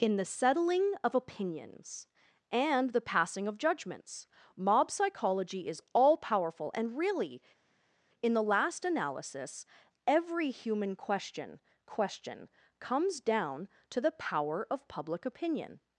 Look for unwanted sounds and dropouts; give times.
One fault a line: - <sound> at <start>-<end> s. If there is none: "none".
none